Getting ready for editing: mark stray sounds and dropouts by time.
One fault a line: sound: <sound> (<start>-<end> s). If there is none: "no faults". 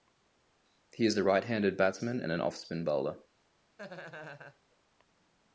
sound: laugh (3.8-4.6 s)